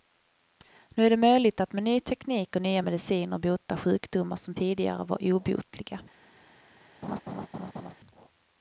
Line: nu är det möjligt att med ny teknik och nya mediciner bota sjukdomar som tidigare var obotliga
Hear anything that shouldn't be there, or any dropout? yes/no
yes